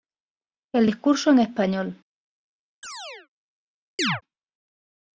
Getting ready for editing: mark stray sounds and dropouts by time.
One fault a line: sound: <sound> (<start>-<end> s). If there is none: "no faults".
sound: chirp (2.8-3.3 s)
sound: chirp (4.0-4.2 s)